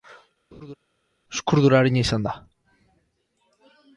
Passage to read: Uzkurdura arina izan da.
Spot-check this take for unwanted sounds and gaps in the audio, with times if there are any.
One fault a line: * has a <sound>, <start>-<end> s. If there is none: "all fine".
* has a laugh, 0.5-0.8 s